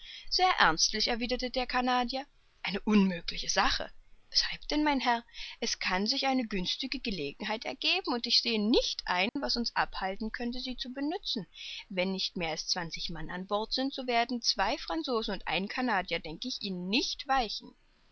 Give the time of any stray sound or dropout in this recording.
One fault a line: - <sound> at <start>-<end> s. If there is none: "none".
- dropout at 9.3-9.4 s